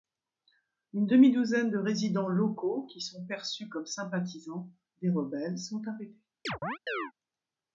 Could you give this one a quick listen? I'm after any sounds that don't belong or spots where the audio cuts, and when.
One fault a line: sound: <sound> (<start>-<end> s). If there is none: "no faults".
sound: chirp (6.4-7.1 s)